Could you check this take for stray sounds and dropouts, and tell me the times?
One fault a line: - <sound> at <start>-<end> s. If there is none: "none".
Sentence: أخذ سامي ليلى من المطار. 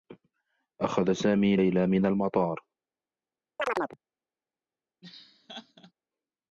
- chirp at 3.6-4.0 s
- laugh at 5.0-5.9 s